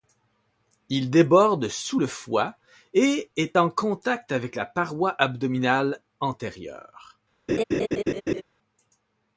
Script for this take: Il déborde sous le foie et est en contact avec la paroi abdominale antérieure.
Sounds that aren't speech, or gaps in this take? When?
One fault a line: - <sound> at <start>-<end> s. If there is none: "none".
- laugh at 7.5-8.4 s